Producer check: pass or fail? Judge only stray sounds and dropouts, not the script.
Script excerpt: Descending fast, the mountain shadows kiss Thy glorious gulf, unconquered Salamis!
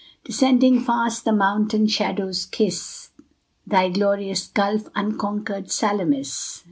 pass